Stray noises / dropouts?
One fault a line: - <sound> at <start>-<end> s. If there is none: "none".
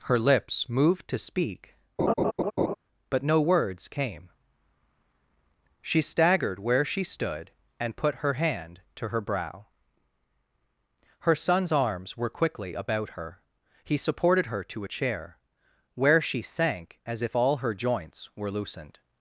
- laugh at 2.0-2.7 s